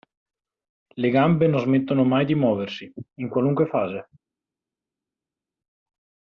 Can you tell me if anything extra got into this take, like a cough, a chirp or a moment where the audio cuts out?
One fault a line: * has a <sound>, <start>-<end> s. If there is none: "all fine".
all fine